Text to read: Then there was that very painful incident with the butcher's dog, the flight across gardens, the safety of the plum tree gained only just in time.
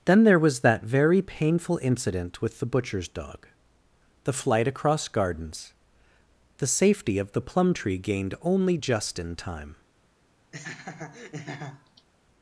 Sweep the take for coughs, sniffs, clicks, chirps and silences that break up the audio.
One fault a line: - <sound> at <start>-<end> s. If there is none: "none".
- laugh at 10.5-12.1 s